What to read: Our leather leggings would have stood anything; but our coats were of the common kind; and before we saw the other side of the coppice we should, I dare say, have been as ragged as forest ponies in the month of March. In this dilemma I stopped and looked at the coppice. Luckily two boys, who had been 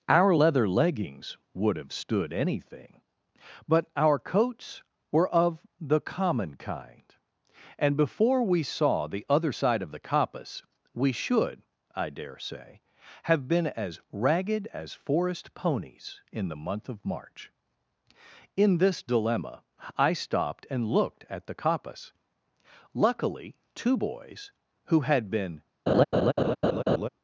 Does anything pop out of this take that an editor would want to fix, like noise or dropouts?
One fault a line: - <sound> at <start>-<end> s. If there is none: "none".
- laugh at 25.9-27.1 s